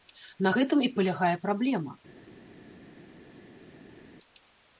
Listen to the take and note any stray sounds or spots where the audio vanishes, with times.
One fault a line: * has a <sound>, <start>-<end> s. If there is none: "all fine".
all fine